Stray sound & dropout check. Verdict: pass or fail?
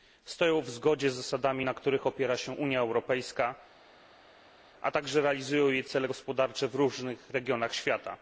pass